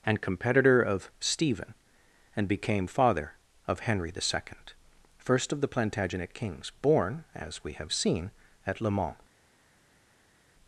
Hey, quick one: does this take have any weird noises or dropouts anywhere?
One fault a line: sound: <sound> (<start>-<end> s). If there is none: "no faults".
no faults